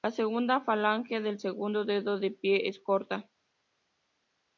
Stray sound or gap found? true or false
false